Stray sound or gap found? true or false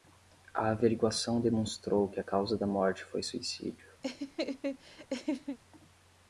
true